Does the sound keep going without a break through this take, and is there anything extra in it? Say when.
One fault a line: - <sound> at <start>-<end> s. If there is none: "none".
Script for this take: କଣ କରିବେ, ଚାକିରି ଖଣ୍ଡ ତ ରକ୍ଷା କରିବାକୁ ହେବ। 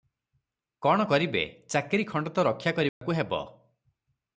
- dropout at 2.9-3.0 s